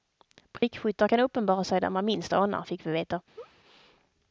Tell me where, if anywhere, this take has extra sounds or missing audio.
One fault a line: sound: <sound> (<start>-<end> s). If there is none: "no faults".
sound: dropout (0.6-0.6 s)
sound: laugh (3.3-3.6 s)